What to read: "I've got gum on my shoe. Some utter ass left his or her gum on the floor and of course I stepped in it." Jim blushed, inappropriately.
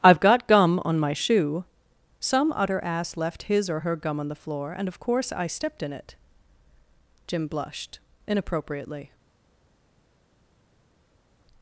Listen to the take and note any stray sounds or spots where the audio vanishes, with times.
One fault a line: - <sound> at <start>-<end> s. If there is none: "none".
none